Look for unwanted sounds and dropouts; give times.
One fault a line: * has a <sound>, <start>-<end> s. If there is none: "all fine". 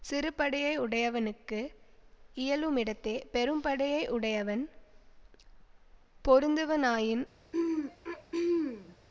* has a throat clearing, 7.5-9.0 s